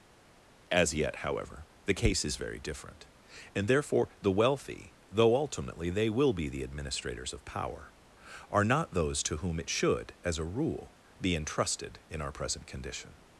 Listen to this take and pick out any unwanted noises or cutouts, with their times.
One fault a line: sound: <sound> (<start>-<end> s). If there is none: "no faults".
no faults